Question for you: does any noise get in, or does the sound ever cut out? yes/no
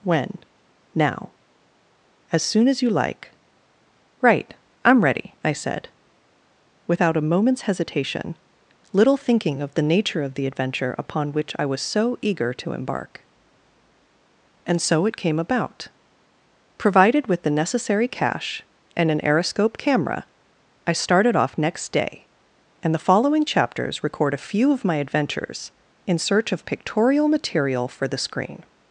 no